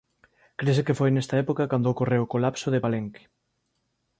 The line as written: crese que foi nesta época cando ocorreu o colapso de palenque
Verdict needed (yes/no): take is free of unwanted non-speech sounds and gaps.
yes